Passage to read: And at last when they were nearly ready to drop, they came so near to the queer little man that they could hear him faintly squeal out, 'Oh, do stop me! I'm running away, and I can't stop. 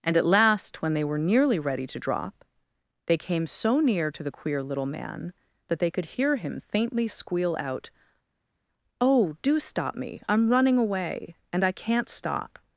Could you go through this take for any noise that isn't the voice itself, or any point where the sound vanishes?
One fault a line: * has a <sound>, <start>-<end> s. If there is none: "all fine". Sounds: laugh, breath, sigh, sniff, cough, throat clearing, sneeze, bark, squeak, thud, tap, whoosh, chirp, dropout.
all fine